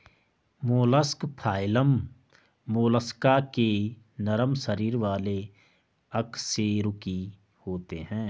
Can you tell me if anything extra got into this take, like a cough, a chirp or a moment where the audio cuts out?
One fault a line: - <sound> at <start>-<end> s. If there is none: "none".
none